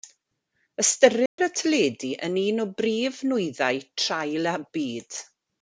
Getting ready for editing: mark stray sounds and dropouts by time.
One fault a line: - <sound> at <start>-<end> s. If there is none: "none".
- dropout at 1.3-1.4 s